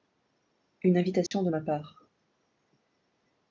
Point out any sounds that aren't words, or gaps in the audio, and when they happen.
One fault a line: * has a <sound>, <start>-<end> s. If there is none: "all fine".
* has a dropout, 1.3-1.3 s